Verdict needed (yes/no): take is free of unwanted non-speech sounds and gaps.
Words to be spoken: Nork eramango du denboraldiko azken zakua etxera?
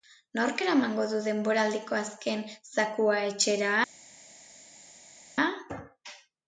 yes